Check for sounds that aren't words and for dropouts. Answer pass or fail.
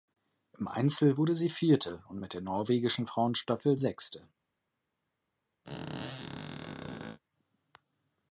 fail